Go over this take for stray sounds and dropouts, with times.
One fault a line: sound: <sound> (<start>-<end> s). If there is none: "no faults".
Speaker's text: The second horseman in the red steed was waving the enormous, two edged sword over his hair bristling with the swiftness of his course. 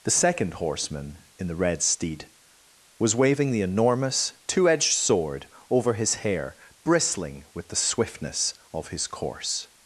no faults